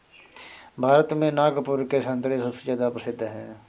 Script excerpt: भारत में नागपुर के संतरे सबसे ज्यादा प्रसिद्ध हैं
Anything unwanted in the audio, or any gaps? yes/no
no